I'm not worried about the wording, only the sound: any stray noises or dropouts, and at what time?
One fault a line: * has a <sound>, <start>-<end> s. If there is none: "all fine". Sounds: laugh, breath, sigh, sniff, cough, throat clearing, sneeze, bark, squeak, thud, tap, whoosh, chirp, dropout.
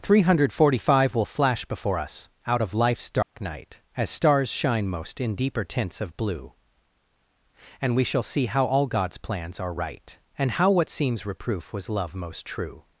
* has a dropout, 3.2-3.3 s